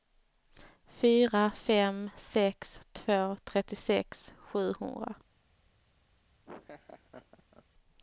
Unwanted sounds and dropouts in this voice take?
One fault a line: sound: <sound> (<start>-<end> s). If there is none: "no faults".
sound: laugh (6.4-7.6 s)